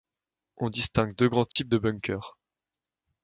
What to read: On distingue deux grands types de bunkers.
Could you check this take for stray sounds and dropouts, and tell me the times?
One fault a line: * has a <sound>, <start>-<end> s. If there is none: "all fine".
* has a dropout, 1.5-1.6 s